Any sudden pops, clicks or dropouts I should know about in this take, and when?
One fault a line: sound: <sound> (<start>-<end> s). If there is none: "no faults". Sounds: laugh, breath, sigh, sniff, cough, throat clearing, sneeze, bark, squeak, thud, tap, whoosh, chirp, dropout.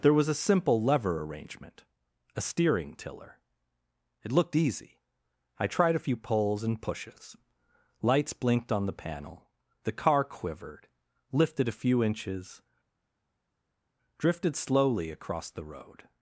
no faults